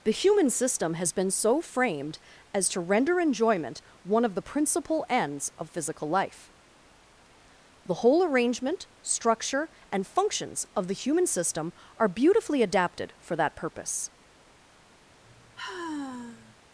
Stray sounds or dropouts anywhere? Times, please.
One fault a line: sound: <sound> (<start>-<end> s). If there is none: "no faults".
sound: sigh (15.2-16.6 s)